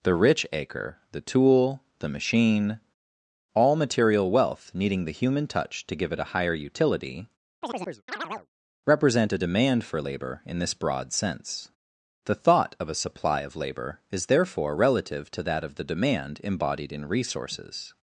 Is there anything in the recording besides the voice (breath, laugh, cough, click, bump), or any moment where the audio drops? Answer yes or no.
yes